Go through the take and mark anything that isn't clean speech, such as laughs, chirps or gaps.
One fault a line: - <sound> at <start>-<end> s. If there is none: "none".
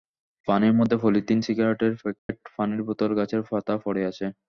- dropout at 2.2-2.3 s